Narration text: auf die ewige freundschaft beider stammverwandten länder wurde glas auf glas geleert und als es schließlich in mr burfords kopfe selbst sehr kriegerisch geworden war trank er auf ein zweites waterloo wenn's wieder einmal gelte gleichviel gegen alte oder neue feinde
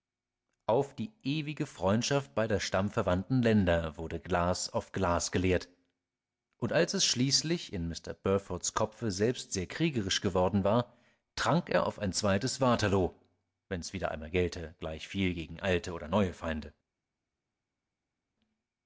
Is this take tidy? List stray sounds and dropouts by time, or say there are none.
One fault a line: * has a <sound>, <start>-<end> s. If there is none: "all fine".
all fine